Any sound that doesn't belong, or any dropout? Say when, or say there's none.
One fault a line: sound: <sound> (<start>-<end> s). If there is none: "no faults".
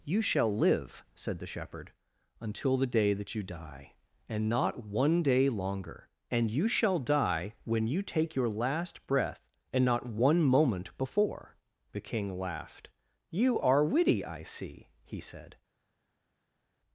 no faults